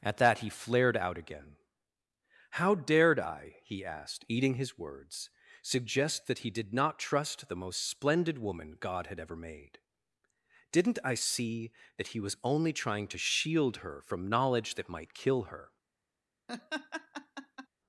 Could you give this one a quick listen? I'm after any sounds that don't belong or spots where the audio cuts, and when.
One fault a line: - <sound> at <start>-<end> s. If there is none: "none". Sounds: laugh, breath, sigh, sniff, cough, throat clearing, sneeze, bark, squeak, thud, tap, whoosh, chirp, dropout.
- laugh at 16.5-17.7 s